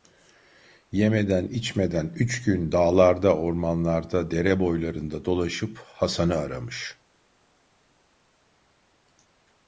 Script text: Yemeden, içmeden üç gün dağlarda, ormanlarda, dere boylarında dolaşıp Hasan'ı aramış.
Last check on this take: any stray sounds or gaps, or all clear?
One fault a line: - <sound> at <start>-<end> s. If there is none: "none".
none